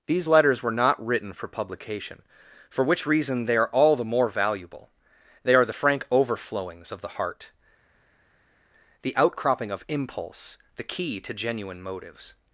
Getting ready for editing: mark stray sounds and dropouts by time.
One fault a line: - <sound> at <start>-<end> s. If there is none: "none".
none